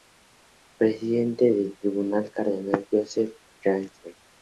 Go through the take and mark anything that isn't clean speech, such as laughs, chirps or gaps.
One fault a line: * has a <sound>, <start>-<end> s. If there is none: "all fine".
all fine